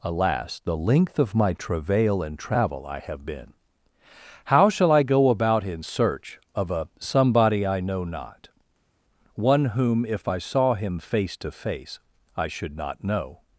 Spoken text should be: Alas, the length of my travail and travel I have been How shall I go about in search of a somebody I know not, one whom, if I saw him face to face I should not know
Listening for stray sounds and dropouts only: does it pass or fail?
pass